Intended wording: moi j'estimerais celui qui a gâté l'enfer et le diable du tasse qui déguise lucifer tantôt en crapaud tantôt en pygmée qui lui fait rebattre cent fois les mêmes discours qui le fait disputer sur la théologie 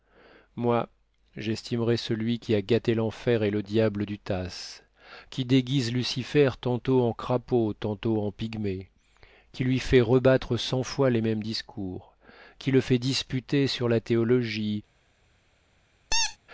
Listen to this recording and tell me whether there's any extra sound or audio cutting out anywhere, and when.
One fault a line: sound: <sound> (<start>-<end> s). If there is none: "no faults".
sound: squeak (16.1-16.4 s)